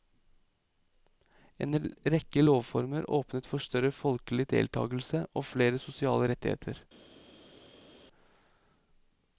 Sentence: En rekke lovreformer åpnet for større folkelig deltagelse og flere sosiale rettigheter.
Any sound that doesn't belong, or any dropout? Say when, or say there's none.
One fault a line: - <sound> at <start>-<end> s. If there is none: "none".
none